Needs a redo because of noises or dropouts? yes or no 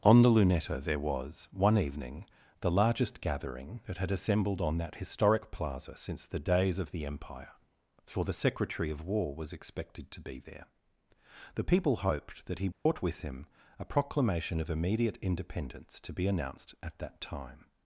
yes